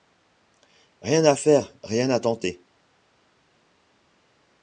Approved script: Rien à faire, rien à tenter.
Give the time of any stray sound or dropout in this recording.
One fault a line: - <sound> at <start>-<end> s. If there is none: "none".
none